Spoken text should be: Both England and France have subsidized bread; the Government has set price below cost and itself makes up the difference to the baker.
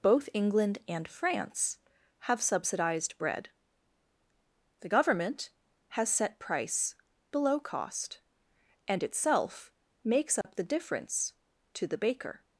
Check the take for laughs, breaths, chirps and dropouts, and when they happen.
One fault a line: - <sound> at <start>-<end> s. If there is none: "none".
- dropout at 10.4-10.4 s